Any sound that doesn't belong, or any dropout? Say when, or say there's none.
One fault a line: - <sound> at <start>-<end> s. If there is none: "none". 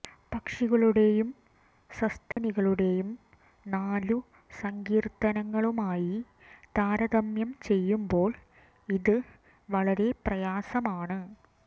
- dropout at 2.3-2.4 s